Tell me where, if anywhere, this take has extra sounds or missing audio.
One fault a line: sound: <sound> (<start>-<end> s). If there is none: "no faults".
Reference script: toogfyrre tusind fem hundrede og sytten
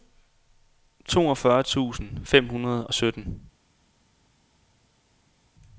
no faults